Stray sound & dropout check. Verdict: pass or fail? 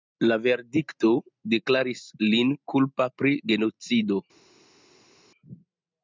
pass